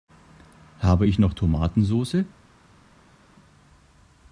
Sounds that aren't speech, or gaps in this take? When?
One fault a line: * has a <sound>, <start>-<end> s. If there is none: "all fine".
all fine